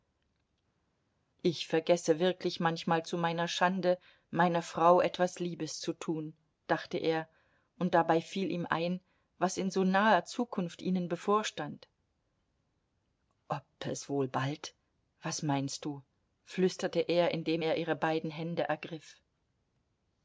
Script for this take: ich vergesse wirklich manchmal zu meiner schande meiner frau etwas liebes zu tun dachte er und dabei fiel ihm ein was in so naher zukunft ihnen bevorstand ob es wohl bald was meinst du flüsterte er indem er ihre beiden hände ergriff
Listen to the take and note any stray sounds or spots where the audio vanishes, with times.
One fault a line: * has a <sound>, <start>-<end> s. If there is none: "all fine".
all fine